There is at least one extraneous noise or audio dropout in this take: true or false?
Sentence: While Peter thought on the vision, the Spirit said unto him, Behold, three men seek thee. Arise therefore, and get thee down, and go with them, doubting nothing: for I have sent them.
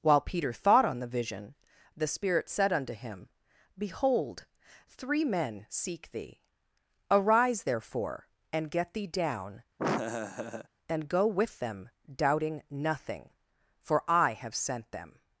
true